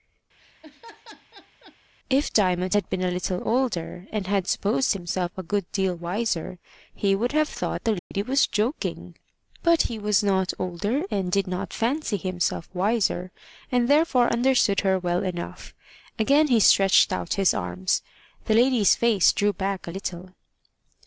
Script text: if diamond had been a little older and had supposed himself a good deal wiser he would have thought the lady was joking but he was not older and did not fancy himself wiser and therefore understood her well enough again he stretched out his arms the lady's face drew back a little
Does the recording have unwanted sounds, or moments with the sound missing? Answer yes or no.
yes